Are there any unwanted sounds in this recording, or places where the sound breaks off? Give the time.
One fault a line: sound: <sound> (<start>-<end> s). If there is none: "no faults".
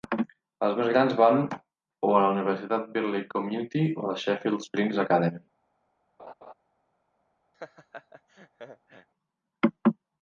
sound: laugh (6.2-6.5 s)
sound: laugh (7.5-9.1 s)